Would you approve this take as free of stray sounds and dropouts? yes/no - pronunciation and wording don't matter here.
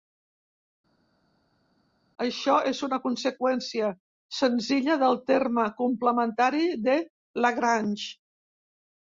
yes